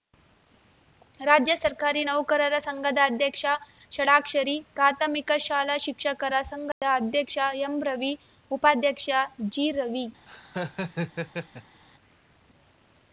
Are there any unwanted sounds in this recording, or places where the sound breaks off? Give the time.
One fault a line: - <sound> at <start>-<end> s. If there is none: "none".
- dropout at 6.7-6.8 s
- laugh at 10.3-11.8 s